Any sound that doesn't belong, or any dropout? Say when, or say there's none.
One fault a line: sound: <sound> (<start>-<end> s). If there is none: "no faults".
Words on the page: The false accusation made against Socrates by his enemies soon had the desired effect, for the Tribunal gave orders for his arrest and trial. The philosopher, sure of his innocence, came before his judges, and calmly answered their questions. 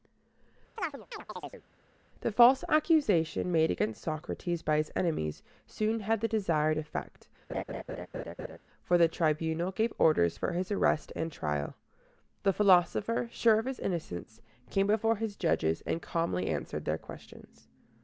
sound: chirp (0.8-1.6 s)
sound: laugh (7.5-8.6 s)